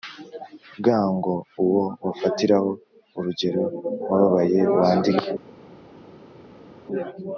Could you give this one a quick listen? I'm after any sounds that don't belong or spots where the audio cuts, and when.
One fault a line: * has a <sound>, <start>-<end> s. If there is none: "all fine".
all fine